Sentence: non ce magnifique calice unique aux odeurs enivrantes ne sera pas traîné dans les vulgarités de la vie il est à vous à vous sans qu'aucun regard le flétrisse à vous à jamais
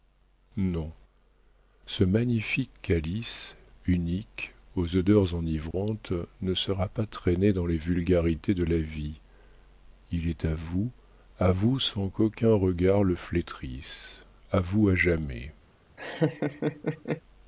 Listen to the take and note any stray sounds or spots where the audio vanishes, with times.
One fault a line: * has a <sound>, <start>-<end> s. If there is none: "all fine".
* has a dropout, 5.7-5.7 s
* has a laugh, 16.0-17.2 s